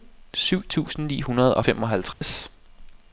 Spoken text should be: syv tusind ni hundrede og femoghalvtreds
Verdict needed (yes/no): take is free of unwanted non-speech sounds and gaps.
no